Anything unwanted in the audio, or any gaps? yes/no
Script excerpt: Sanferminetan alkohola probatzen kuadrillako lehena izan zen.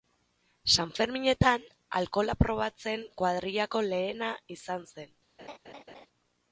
yes